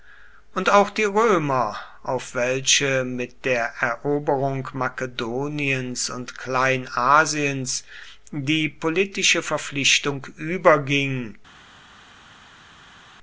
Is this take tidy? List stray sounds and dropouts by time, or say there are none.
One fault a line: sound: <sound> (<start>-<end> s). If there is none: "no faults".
no faults